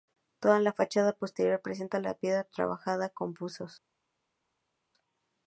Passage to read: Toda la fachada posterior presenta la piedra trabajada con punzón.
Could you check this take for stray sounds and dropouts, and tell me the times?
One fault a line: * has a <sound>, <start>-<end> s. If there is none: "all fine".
all fine